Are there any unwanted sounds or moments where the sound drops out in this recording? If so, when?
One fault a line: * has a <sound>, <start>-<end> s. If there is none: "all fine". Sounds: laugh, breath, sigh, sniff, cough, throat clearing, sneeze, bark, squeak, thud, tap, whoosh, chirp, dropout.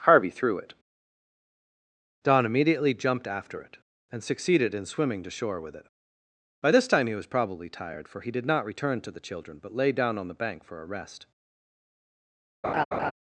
* has a laugh, 12.6-13.1 s